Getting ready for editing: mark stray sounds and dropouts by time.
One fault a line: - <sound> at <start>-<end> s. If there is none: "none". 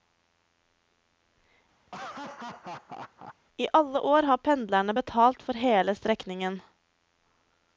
- laugh at 1.9-3.4 s